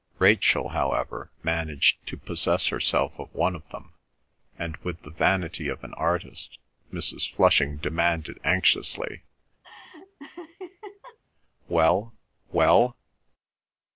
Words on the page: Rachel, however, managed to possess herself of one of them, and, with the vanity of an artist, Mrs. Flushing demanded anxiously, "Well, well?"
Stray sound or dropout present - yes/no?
yes